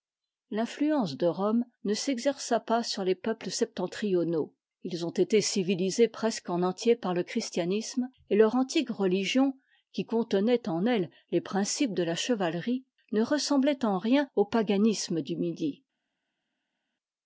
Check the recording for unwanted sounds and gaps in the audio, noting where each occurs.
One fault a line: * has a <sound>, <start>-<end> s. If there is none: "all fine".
all fine